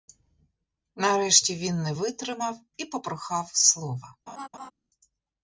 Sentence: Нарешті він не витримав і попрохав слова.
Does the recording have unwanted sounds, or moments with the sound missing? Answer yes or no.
yes